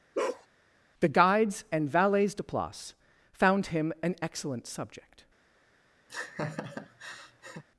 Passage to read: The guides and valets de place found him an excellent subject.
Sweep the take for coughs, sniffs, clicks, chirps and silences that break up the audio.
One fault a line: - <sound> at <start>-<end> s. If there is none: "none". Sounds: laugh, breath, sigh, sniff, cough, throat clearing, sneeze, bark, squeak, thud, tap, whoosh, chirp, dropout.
- bark at 0.1-0.5 s
- laugh at 6.1-7.6 s